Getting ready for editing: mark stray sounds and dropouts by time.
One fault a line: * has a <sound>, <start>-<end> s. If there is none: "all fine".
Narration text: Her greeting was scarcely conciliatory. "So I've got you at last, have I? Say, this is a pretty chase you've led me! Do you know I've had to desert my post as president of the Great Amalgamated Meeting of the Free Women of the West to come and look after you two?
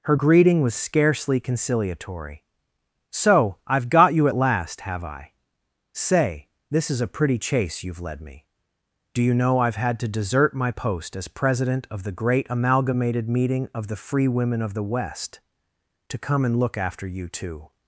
all fine